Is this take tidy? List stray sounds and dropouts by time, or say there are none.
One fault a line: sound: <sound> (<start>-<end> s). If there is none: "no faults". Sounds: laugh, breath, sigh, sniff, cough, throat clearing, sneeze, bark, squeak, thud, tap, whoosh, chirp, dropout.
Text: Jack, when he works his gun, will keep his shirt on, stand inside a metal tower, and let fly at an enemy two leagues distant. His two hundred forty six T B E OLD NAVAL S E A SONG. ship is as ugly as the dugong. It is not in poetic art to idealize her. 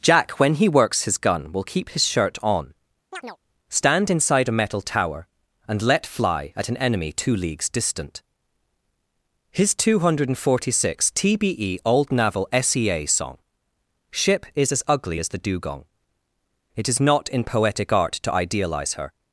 sound: chirp (3.1-3.4 s)